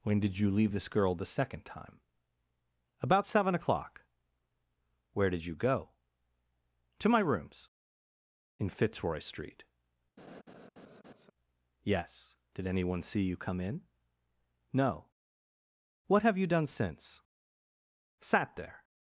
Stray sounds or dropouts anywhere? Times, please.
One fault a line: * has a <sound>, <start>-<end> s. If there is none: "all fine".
* has a laugh, 10.2-11.3 s